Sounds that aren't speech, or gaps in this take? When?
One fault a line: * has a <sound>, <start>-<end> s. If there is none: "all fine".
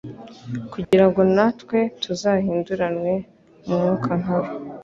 * has a dropout, 0.8-0.9 s